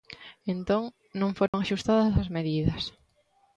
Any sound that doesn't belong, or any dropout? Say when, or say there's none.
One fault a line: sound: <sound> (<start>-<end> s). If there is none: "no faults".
sound: dropout (1.5-1.5 s)